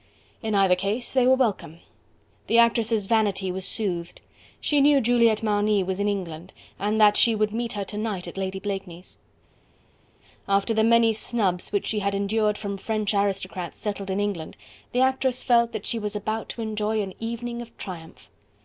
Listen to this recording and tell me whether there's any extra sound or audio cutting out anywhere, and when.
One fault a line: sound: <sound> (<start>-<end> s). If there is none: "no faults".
no faults